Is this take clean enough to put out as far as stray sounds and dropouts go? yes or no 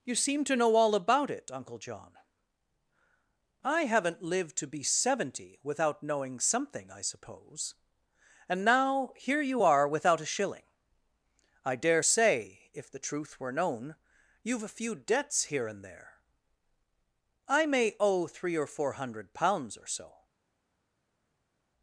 yes